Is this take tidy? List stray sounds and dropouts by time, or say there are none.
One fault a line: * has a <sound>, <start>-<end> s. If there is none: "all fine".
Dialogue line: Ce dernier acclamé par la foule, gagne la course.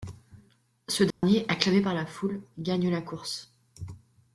* has a dropout, 1.1-1.2 s